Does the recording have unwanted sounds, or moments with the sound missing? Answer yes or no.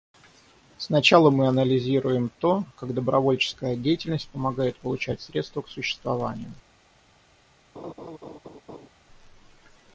yes